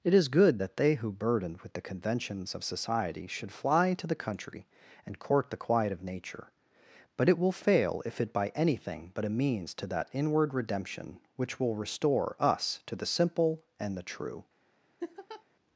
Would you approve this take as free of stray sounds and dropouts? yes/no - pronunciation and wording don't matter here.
no